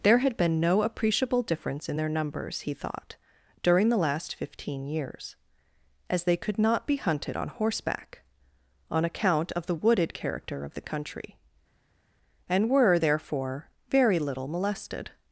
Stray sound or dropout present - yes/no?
no